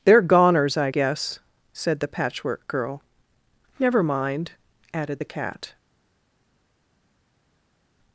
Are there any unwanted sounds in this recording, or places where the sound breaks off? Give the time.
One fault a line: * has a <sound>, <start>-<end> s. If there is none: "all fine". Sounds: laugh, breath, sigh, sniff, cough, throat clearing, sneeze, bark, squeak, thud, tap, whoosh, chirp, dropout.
all fine